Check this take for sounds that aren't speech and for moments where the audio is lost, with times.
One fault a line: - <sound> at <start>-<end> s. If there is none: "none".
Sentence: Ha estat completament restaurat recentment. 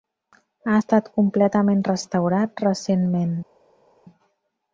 none